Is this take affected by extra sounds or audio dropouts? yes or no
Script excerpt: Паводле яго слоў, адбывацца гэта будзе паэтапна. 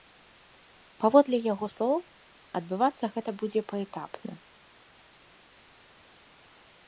no